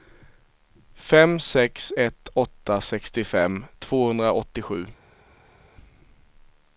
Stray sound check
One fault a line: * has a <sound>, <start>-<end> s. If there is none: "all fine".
all fine